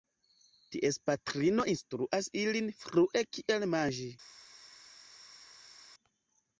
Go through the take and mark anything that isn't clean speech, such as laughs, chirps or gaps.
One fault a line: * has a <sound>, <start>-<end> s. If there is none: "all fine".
all fine